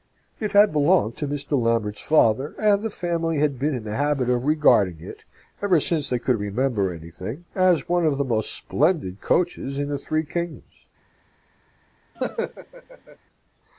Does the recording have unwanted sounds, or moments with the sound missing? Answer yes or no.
yes